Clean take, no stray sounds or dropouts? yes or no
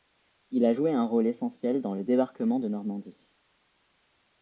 yes